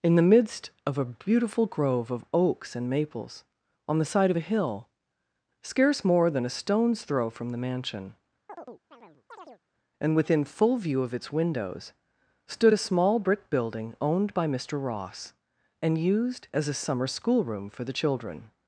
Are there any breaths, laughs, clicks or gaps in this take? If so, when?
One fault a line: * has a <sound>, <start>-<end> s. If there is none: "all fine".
* has a chirp, 8.5-9.6 s